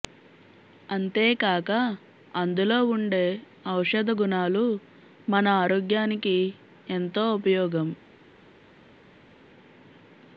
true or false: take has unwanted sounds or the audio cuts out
false